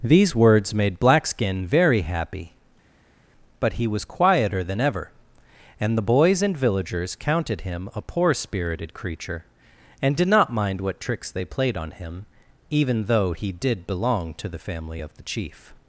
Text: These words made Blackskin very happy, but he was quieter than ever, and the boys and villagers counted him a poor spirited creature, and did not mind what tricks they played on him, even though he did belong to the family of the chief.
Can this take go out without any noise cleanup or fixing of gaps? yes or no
yes